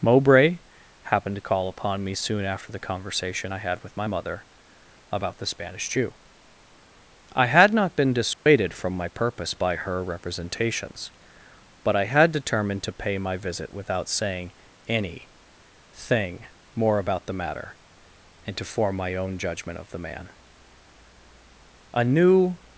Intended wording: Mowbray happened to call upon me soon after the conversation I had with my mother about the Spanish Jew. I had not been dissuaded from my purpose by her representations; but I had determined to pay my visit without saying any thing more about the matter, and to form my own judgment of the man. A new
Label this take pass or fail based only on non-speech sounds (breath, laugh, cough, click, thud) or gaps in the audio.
fail